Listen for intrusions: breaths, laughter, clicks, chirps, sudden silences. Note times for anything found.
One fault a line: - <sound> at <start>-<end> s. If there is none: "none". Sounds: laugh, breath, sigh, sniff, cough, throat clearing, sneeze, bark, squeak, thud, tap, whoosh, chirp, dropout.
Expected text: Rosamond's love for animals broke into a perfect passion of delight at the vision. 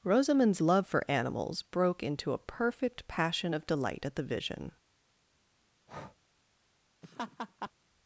- breath at 5.9-6.2 s
- laugh at 7.0-7.7 s